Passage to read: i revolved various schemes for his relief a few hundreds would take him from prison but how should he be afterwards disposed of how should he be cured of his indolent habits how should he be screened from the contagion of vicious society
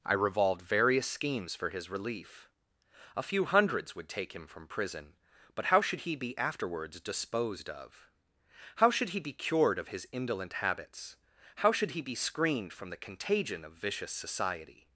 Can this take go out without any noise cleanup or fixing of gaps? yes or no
yes